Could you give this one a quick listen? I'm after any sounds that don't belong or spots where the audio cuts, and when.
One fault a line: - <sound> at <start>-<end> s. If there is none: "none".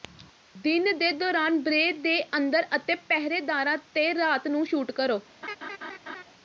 - laugh at 5.4-6.2 s